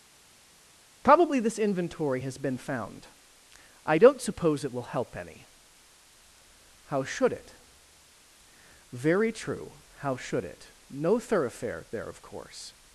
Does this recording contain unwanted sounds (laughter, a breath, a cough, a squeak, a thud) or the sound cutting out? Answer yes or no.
no